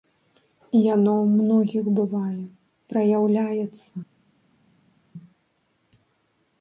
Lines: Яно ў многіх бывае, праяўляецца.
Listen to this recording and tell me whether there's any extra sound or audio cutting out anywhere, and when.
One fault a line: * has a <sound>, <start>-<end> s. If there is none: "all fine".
all fine